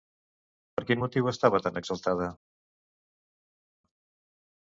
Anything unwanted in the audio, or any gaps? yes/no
no